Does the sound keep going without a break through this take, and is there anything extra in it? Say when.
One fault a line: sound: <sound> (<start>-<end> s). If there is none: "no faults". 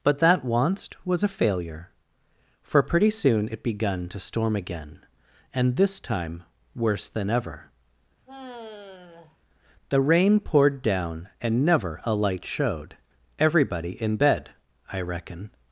sound: sigh (8.3-9.4 s)